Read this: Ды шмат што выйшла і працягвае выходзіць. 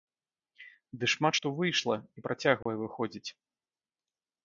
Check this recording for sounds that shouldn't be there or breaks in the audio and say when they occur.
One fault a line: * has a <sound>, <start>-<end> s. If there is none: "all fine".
* has a dropout, 2.6-2.7 s